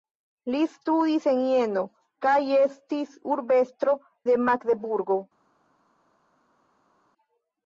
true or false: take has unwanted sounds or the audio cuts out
false